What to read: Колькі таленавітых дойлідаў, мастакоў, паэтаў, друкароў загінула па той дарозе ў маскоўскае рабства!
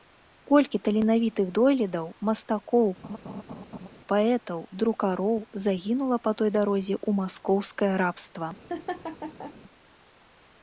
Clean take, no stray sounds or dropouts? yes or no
no